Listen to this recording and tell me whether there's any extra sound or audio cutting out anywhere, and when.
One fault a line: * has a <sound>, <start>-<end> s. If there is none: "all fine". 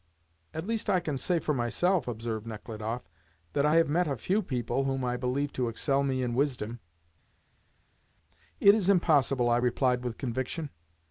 all fine